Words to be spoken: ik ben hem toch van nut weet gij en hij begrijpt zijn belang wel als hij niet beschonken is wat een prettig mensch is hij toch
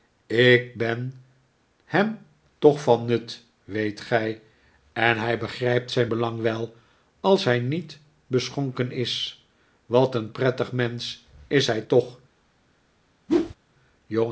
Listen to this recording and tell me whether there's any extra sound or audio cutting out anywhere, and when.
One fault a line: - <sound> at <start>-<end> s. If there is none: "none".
- whoosh at 13.3-13.6 s